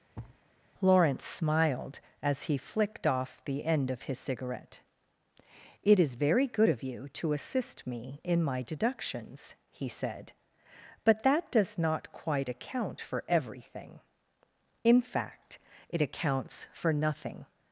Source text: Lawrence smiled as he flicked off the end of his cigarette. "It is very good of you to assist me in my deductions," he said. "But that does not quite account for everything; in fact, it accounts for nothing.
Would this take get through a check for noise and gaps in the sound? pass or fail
fail